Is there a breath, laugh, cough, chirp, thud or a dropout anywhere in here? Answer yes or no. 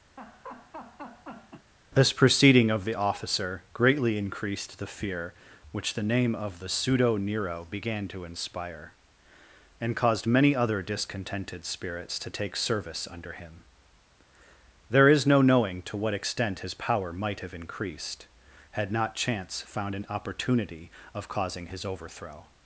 yes